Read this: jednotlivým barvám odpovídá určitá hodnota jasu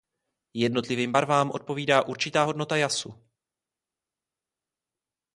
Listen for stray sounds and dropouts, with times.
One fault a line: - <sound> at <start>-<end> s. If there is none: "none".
none